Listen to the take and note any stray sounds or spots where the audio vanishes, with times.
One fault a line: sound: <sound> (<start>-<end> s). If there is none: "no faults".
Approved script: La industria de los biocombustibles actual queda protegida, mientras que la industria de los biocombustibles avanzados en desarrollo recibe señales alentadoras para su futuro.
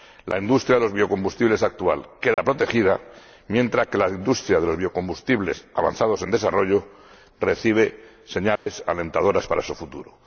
sound: dropout (2.3-2.4 s)
sound: dropout (8.6-8.7 s)